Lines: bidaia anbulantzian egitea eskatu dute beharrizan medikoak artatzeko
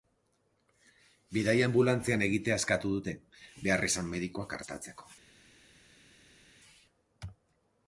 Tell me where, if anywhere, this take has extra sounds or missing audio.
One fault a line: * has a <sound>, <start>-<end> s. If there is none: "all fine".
all fine